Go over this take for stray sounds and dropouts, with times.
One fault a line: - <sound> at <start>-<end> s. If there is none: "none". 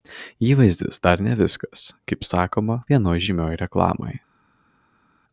none